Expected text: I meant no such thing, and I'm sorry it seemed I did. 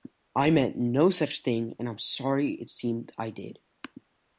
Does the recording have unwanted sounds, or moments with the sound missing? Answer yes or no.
no